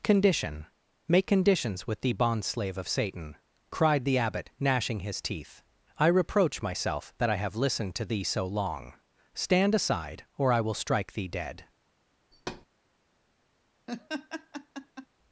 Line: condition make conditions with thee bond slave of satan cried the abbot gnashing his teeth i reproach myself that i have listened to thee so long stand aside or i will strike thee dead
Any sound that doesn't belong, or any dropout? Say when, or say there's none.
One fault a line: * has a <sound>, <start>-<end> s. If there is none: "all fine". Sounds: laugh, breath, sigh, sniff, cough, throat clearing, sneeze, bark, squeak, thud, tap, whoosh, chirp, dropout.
* has a thud, 12.3-12.7 s
* has a laugh, 13.9-15.1 s